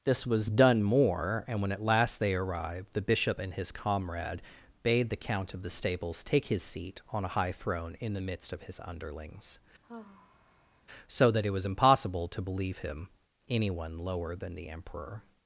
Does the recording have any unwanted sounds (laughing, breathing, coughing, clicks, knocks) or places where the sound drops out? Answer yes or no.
yes